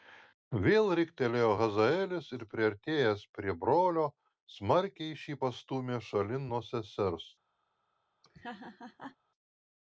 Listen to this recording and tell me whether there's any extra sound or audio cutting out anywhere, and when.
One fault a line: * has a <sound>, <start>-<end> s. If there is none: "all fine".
* has a laugh, 8.2-9.2 s